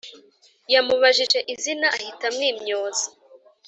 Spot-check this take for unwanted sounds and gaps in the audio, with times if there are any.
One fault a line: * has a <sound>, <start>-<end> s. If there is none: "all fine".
* has a dropout, 1.3-1.3 s